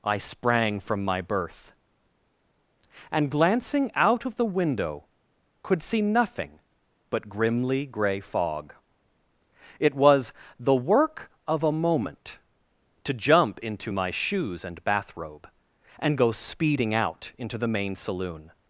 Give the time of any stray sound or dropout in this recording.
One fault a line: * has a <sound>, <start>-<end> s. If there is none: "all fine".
all fine